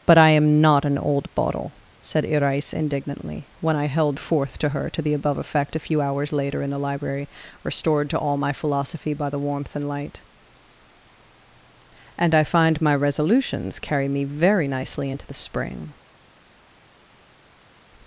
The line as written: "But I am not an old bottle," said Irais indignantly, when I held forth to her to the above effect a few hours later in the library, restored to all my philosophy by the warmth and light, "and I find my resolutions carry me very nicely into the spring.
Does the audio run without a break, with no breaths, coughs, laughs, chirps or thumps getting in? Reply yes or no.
yes